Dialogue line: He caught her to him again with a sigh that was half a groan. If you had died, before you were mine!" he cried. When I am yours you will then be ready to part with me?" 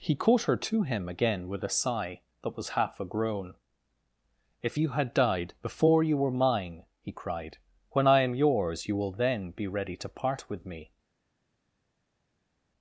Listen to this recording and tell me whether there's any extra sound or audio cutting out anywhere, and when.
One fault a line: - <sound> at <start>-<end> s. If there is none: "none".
none